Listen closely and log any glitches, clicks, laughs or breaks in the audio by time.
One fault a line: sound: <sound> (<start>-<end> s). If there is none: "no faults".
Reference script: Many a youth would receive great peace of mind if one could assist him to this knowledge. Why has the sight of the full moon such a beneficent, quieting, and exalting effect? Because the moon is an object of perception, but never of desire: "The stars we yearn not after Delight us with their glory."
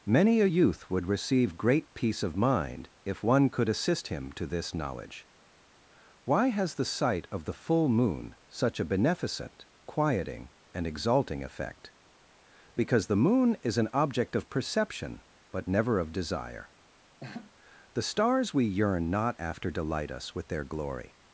sound: laugh (17.2-17.5 s)